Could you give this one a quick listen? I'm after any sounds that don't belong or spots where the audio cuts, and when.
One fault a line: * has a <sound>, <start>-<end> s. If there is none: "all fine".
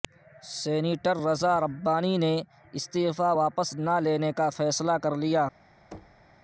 * has a thud, 5.9-6.3 s